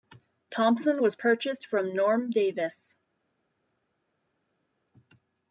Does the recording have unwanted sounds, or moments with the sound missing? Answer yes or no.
no